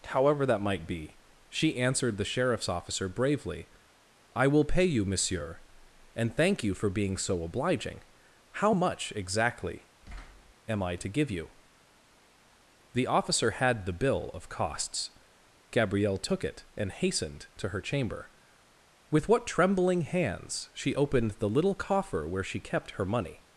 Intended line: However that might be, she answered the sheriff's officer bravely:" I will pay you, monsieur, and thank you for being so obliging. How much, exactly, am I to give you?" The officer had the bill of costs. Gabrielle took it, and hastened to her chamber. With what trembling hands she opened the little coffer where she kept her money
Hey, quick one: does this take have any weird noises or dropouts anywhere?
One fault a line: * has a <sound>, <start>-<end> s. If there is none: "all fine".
* has a thud, 10.0-10.5 s